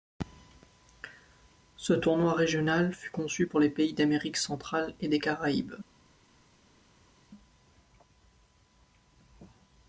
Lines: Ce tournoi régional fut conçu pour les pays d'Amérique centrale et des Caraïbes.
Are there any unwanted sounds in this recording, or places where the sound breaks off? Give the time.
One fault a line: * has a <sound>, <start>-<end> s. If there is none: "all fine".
all fine